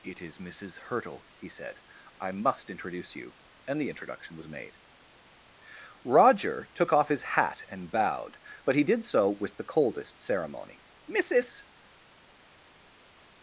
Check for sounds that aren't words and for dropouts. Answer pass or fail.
pass